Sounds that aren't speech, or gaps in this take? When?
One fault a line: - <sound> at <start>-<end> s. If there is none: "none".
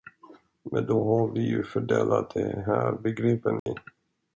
- dropout at 3.6-3.7 s